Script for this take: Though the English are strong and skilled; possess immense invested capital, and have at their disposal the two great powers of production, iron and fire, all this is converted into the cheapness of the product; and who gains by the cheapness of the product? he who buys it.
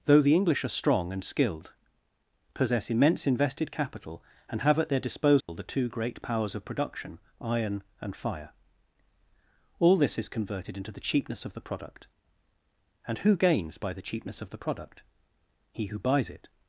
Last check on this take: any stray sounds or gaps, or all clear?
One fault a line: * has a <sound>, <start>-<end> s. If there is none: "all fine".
* has a dropout, 5.4-5.5 s